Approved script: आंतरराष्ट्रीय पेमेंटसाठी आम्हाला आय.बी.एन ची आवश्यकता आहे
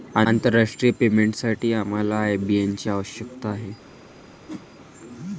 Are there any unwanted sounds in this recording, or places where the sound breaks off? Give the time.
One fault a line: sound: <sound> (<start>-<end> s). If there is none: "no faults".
sound: whoosh (4.5-4.7 s)